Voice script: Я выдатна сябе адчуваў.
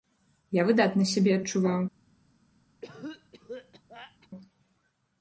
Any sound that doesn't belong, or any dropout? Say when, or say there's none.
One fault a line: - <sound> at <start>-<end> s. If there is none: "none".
- cough at 2.8-4.3 s